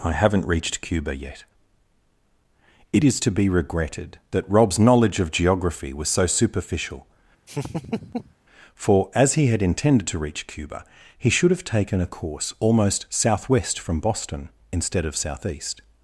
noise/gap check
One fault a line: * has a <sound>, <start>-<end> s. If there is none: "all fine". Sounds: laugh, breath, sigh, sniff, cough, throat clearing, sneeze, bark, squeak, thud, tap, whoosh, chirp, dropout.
* has a laugh, 7.5-8.3 s